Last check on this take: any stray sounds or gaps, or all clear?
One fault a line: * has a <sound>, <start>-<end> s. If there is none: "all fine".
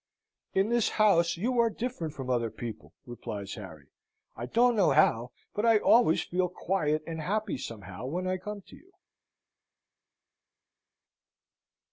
all fine